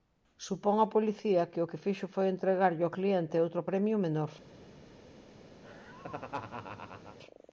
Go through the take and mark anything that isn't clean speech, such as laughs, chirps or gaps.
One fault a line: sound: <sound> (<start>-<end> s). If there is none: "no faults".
sound: laugh (5.6-7.2 s)